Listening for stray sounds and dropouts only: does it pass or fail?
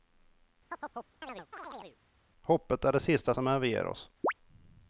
fail